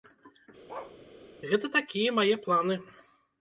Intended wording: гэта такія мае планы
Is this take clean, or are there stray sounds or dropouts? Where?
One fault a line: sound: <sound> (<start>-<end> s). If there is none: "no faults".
sound: bark (0.7-1.0 s)